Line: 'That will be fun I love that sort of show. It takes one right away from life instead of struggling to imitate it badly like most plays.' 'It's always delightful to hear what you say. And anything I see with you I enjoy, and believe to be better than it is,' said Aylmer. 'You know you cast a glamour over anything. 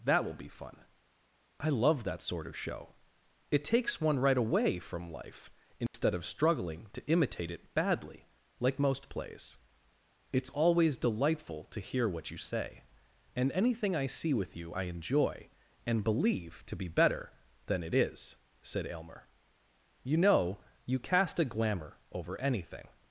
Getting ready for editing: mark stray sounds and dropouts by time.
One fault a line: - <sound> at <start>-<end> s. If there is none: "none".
- dropout at 5.9-5.9 s